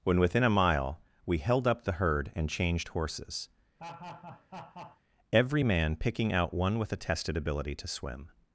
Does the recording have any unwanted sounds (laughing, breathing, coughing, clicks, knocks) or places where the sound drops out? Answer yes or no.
yes